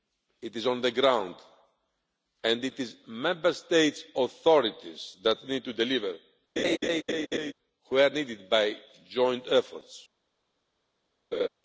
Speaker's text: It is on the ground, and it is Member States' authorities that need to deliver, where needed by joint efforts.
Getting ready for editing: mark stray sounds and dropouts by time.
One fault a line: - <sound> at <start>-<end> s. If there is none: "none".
- laugh at 6.6-7.5 s
- laugh at 11.3-11.5 s